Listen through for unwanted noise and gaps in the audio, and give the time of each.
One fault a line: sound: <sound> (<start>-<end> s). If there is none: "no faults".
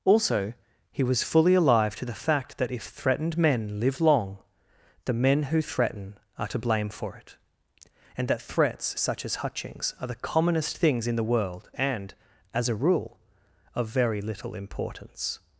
no faults